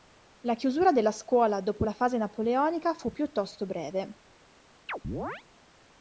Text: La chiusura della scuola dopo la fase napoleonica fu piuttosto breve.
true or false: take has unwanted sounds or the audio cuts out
true